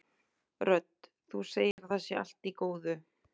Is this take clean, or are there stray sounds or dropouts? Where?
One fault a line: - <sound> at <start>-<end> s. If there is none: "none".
- dropout at 1.7-1.8 s